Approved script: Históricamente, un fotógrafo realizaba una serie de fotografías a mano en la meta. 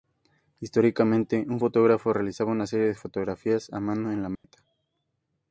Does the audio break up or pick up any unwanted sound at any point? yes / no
yes